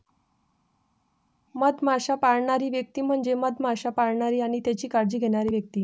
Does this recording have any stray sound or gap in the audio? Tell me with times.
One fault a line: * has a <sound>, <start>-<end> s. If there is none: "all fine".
all fine